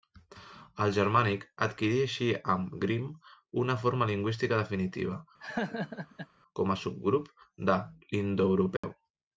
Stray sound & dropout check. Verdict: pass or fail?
fail